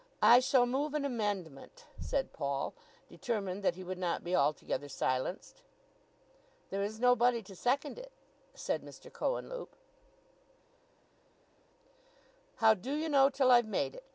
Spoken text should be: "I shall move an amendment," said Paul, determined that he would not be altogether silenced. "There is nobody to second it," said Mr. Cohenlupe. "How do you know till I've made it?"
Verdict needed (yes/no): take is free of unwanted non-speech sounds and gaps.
yes